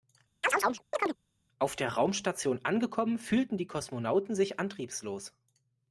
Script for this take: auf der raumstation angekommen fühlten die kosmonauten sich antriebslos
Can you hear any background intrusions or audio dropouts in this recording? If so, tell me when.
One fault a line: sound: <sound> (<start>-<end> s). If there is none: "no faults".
sound: chirp (0.4-1.2 s)